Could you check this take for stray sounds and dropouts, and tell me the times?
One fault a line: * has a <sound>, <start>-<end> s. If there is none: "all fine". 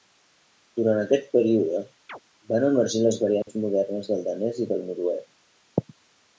* has a chirp, 2.1-2.2 s
* has a dropout, 3.4-3.5 s